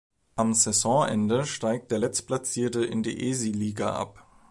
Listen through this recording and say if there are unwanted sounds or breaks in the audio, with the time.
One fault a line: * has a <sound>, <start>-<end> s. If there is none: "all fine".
all fine